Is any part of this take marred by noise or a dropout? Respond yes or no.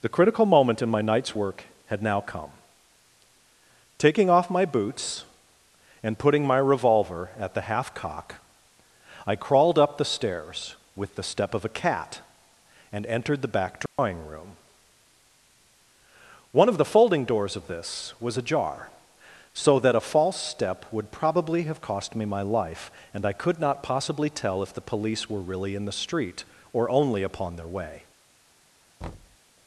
yes